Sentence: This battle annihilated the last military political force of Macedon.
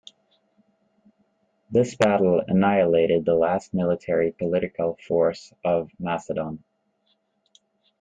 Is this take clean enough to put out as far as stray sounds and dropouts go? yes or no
yes